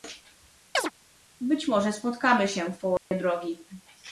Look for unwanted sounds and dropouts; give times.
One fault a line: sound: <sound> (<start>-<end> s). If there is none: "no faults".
sound: chirp (0.7-0.9 s)
sound: dropout (3.0-3.1 s)